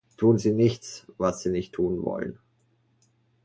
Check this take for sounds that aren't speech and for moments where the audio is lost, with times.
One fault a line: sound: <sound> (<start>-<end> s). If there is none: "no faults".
no faults